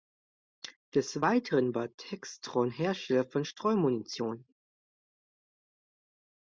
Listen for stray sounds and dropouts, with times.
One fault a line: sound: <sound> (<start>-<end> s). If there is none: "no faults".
no faults